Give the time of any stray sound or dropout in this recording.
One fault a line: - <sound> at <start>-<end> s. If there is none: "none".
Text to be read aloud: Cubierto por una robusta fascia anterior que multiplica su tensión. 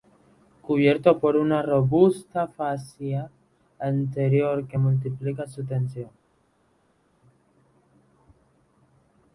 none